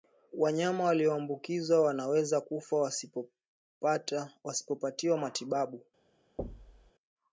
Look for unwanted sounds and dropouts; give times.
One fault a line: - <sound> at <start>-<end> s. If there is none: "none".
- thud at 6.4-6.9 s